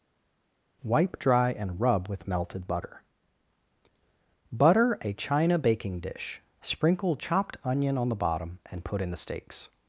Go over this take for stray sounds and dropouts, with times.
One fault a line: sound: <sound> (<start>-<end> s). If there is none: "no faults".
no faults